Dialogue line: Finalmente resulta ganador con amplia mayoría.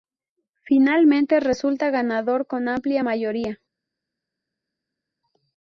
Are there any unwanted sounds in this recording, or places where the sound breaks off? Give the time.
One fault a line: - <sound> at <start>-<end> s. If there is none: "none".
none